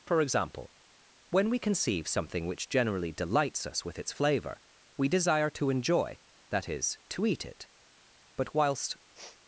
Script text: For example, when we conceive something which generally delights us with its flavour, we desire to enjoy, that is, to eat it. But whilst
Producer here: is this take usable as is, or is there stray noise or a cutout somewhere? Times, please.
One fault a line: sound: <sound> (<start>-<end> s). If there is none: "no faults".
sound: sniff (9.1-9.4 s)